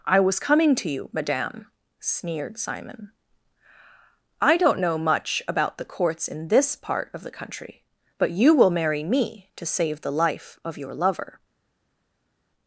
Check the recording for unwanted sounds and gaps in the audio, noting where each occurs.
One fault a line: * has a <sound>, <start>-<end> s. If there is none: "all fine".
all fine